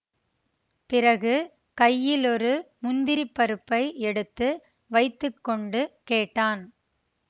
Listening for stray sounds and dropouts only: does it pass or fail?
pass